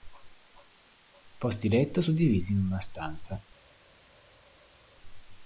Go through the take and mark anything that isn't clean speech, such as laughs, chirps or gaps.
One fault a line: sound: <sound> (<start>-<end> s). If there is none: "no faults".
no faults